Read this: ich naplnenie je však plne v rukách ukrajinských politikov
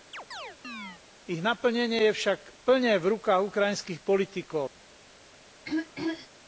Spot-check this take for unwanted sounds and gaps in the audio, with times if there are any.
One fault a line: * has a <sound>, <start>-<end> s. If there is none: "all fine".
* has a chirp, 0.1-1.0 s
* has a throat clearing, 5.6-6.3 s